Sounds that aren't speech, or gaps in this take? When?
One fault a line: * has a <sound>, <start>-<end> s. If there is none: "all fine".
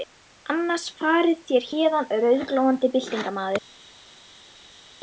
all fine